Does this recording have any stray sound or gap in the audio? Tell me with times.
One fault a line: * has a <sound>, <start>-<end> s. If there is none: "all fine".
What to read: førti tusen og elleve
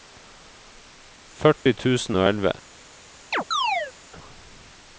* has a dropout, 1.6-1.7 s
* has a chirp, 3.3-3.9 s